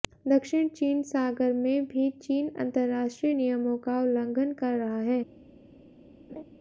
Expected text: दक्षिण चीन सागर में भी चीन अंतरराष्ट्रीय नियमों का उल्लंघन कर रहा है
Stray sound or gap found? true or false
true